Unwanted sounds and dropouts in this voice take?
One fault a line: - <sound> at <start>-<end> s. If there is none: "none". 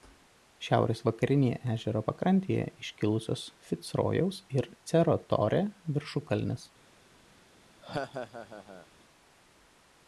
- laugh at 7.8-8.9 s